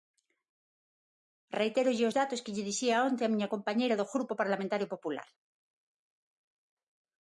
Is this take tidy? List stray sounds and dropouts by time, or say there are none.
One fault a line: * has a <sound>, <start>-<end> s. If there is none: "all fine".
all fine